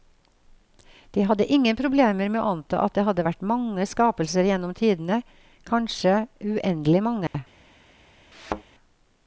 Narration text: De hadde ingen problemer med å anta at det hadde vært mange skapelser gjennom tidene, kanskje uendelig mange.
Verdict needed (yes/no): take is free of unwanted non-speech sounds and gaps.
no